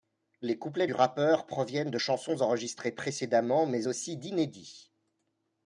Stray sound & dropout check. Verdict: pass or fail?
pass